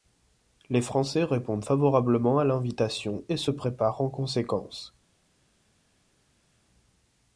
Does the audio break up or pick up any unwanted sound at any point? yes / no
no